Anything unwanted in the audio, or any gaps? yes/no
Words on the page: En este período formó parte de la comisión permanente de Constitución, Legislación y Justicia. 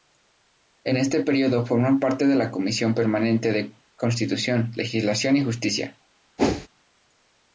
yes